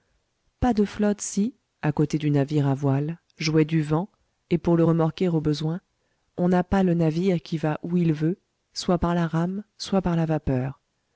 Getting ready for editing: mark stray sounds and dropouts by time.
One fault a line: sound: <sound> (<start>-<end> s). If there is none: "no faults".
no faults